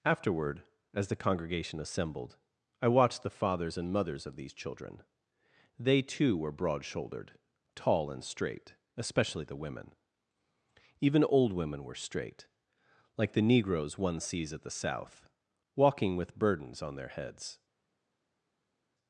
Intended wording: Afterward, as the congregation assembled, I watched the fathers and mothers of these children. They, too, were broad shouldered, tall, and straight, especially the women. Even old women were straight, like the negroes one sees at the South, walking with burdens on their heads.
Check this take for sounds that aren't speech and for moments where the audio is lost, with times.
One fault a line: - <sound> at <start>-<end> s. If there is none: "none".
none